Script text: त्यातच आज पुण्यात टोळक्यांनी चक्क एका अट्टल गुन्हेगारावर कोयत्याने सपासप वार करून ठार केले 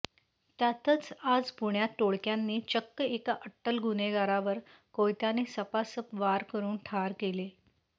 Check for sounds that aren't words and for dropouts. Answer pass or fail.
pass